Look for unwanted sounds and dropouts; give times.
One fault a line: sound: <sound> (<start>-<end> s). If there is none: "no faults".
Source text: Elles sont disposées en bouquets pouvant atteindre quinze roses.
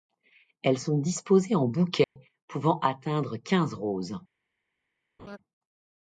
sound: dropout (2.0-2.2 s)
sound: laugh (5.2-5.4 s)